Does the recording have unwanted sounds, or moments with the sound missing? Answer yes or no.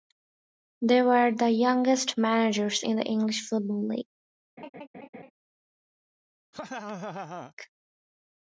yes